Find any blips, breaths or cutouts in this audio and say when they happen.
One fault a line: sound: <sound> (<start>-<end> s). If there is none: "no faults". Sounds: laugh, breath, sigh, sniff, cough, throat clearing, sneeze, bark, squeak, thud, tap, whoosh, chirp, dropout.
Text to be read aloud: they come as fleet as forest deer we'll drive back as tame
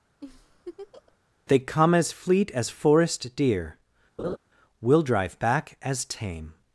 sound: laugh (0.2-1.2 s)
sound: laugh (4.2-4.4 s)